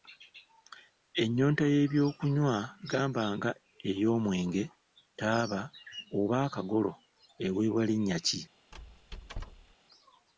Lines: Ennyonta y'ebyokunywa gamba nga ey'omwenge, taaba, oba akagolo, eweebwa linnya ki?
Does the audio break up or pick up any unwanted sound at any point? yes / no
yes